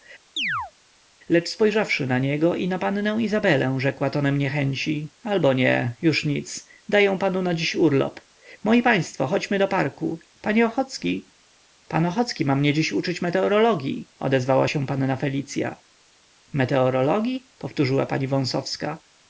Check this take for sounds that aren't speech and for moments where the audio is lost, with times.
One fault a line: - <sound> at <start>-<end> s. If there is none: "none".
- chirp at 0.4-0.7 s